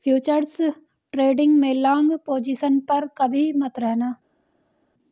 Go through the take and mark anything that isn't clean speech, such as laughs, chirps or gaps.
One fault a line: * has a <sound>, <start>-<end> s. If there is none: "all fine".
all fine